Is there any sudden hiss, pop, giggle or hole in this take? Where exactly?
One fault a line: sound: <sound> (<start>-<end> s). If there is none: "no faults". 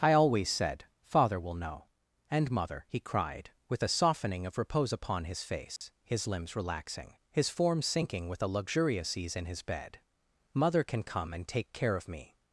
sound: dropout (5.8-5.8 s)